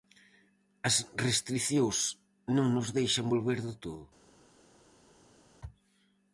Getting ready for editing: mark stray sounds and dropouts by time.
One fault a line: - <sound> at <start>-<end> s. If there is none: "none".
none